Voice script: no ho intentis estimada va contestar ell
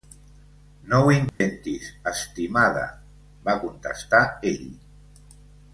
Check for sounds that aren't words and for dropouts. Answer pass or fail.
fail